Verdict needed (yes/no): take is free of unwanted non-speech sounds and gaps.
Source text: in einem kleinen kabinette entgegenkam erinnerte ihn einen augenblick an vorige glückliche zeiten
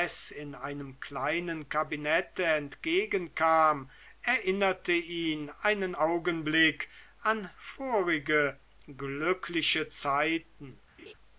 no